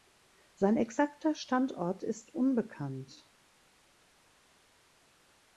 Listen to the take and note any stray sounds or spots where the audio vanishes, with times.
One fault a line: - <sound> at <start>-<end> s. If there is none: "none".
none